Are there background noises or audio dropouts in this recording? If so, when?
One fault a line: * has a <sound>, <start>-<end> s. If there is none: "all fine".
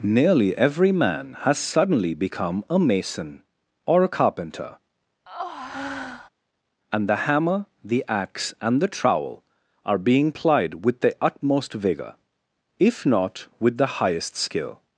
* has a breath, 5.3-6.3 s